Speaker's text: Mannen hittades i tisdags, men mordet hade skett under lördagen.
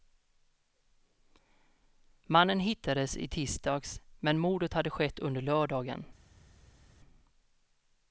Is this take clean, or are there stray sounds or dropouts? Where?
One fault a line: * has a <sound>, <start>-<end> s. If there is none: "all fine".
all fine